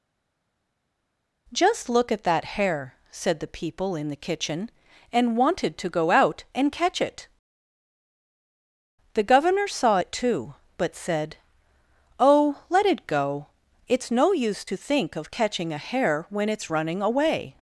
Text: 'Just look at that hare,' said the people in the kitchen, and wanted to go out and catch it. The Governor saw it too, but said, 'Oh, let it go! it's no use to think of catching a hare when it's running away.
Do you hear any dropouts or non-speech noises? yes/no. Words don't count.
no